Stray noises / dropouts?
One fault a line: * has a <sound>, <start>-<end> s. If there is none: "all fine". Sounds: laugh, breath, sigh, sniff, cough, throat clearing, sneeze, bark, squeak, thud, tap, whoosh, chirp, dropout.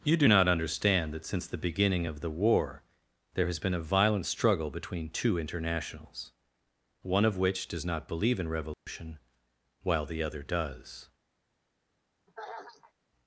* has a dropout, 8.7-8.9 s
* has a throat clearing, 12.3-12.9 s